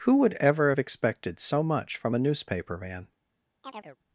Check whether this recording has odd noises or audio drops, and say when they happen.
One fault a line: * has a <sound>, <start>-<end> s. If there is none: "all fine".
* has a chirp, 3.6-4.0 s